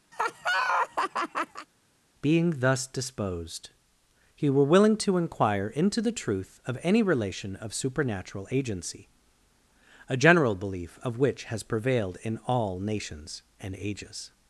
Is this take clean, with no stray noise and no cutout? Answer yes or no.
no